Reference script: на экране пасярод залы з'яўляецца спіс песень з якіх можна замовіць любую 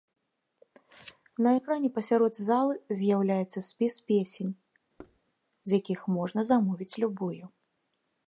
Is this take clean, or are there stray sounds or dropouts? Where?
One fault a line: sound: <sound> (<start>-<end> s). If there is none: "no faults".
sound: thud (5.0-5.2 s)